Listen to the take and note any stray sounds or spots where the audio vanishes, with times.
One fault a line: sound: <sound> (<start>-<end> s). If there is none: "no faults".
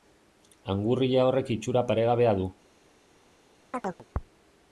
sound: chirp (3.7-4.1 s)